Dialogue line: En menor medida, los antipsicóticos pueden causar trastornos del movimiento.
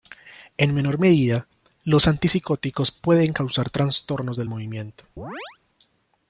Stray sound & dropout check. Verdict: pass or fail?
fail